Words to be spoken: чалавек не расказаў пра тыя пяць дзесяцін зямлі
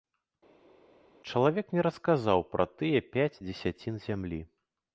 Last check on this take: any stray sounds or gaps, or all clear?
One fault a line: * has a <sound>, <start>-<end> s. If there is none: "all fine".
all fine